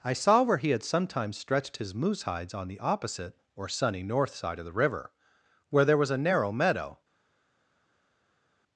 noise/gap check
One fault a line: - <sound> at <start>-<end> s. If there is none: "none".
none